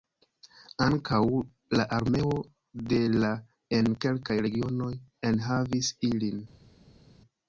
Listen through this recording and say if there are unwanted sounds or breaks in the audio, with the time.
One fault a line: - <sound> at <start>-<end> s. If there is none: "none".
none